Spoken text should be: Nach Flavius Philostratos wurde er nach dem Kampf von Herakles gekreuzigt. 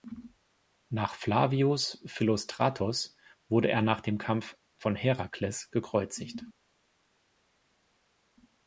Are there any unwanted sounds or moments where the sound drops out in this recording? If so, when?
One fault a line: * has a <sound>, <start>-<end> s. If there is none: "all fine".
all fine